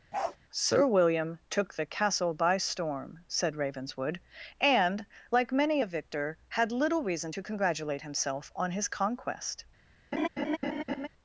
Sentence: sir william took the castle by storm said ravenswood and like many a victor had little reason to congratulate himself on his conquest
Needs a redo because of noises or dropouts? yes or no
yes